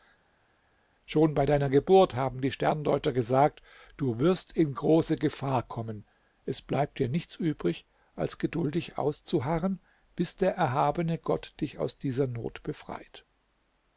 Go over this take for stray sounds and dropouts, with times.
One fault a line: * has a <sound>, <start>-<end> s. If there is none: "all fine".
all fine